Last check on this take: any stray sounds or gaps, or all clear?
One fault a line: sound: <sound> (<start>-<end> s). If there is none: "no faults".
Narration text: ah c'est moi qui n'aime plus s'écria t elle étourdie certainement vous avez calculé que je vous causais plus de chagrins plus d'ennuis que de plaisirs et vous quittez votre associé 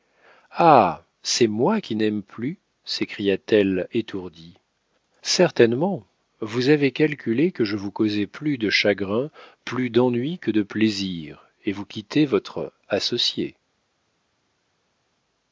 no faults